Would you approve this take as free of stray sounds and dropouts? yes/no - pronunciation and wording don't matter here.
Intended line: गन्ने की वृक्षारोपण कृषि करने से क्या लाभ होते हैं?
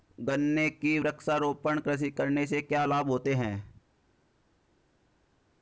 yes